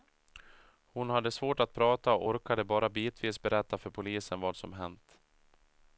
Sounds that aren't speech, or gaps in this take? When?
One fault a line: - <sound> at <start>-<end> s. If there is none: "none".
none